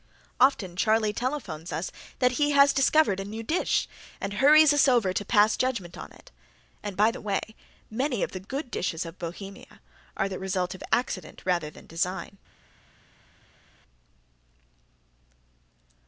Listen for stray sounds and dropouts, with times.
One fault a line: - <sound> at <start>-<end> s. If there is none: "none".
none